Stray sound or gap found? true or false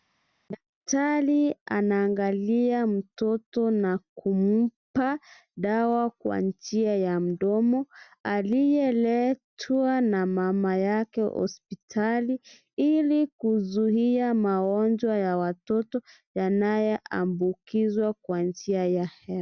false